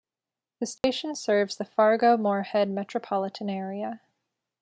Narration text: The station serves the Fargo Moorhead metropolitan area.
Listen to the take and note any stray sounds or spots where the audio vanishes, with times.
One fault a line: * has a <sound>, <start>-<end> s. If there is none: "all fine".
* has a dropout, 0.8-0.8 s